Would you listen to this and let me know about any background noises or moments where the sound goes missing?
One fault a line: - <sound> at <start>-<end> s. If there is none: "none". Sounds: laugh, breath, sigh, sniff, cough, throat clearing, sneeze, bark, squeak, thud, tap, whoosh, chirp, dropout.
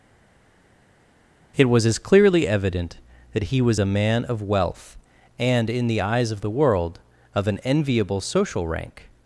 none